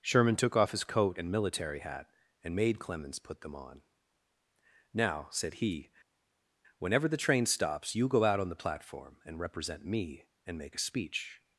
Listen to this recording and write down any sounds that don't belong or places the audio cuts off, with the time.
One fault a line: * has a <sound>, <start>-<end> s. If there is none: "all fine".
all fine